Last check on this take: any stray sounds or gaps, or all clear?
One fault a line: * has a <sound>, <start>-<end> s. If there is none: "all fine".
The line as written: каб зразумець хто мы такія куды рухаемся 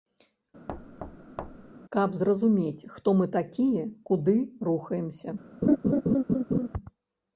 * has a thud, 0.7-1.7 s
* has a laugh, 5.6-6.7 s